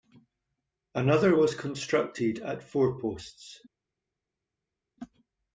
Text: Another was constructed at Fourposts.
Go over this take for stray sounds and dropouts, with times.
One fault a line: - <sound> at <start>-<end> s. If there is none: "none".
none